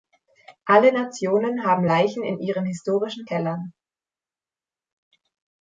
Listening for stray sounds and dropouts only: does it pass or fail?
pass